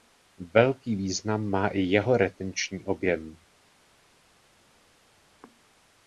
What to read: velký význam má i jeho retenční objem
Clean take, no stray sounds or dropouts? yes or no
yes